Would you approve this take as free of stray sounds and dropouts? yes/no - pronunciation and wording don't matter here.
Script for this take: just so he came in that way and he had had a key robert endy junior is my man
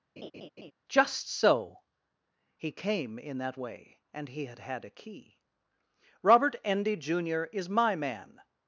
no